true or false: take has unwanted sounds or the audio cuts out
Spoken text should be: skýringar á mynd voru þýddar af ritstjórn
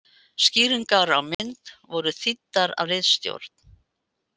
true